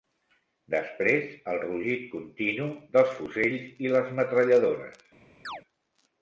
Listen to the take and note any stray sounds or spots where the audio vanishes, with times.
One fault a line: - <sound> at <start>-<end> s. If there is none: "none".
- chirp at 5.4-5.6 s